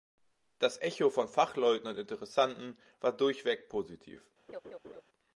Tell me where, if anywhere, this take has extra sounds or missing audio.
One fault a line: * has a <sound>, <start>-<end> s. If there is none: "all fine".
* has a laugh, 4.5-5.0 s